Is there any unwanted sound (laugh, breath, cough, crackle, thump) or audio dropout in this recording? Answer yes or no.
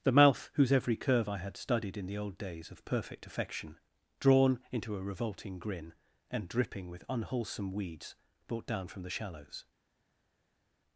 no